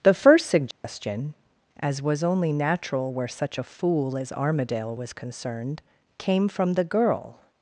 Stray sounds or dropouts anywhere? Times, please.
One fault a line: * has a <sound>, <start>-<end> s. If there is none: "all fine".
* has a dropout, 0.7-0.8 s